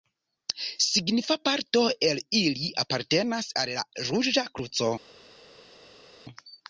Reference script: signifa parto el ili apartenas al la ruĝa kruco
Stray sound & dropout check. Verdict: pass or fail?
pass